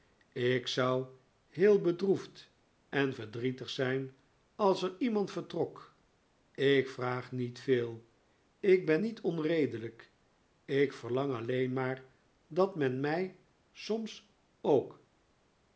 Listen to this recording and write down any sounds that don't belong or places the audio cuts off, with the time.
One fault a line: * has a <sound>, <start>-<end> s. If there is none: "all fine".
all fine